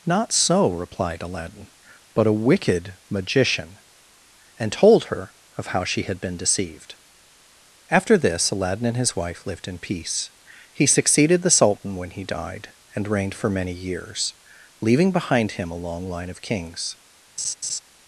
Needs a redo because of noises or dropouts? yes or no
yes